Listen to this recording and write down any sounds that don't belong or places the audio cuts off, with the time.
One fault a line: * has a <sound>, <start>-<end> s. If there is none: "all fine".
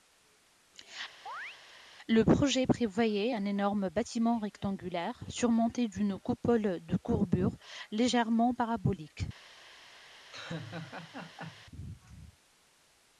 * has a chirp, 1.3-1.6 s
* has a laugh, 10.3-11.7 s